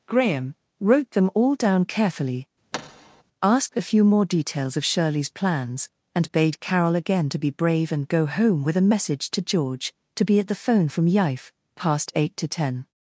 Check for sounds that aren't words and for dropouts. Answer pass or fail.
fail